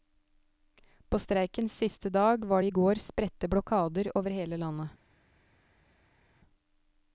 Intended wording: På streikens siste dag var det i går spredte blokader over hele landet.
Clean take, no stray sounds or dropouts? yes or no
yes